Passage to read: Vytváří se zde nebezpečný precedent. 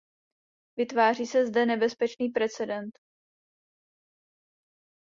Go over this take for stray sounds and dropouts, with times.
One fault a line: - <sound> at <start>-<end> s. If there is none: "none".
none